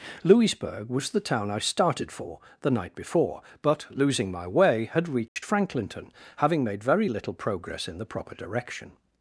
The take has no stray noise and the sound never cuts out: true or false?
false